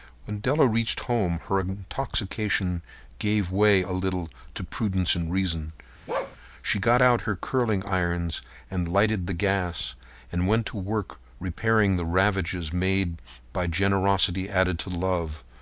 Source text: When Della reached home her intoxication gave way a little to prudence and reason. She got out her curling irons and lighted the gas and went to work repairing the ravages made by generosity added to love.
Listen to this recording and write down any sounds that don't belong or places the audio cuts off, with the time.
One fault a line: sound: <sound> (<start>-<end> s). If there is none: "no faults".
sound: bark (6.1-6.4 s)